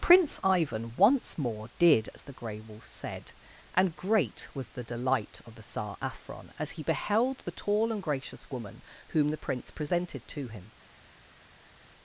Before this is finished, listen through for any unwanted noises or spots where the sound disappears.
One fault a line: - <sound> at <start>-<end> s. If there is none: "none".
none